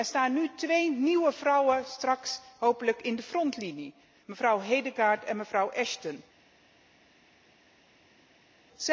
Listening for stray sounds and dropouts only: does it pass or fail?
pass